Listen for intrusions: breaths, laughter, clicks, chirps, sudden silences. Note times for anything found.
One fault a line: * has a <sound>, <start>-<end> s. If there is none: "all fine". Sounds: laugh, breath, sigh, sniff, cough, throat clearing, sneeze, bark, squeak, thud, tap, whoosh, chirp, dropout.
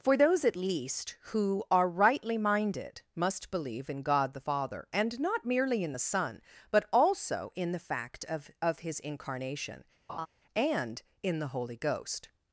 * has a laugh, 10.1-10.3 s